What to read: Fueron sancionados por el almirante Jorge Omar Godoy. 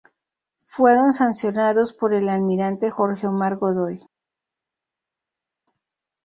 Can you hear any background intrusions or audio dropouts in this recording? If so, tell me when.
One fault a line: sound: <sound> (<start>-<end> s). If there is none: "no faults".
no faults